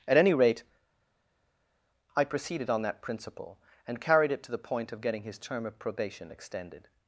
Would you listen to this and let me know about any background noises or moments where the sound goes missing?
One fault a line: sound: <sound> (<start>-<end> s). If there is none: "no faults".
no faults